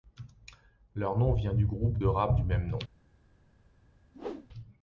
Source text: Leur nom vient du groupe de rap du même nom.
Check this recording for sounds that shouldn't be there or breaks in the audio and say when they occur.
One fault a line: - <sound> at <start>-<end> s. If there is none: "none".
- whoosh at 4.1-4.5 s